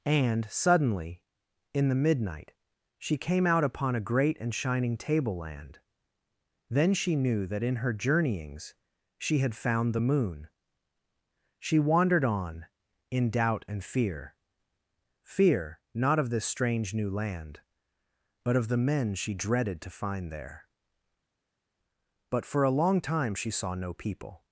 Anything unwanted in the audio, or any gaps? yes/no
no